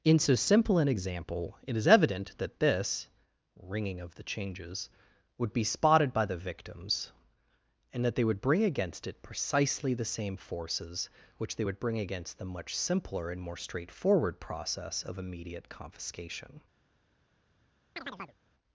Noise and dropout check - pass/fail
fail